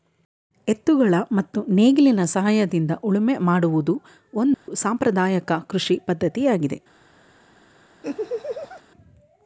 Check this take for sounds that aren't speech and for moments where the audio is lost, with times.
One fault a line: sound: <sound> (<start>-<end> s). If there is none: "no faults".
sound: dropout (4.5-4.7 s)
sound: laugh (8.0-8.8 s)